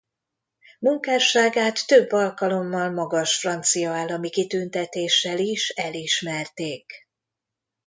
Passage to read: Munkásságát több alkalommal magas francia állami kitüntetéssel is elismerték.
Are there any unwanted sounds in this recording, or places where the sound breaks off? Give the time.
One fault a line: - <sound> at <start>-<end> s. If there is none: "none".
none